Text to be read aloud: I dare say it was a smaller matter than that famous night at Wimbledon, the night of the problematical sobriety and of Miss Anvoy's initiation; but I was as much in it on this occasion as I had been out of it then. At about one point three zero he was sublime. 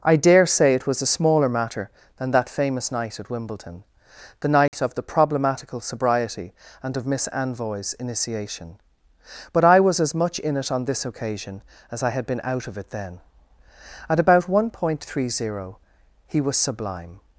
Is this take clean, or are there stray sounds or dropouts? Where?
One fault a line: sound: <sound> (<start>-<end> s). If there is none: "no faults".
sound: dropout (4.7-4.7 s)